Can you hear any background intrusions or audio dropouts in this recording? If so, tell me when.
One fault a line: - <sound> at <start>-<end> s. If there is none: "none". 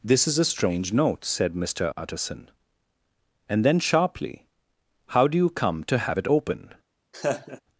- laugh at 7.1-7.6 s